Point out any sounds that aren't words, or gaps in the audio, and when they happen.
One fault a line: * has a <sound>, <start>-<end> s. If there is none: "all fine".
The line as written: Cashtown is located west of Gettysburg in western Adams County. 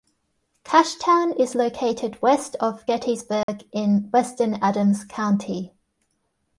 * has a dropout, 3.4-3.5 s